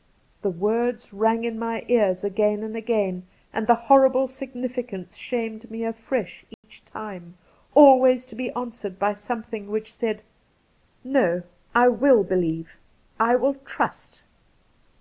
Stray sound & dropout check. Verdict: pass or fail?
fail